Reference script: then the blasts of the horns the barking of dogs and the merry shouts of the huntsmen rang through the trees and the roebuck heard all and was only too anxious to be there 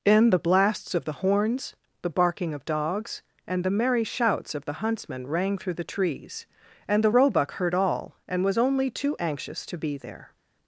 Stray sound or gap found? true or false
false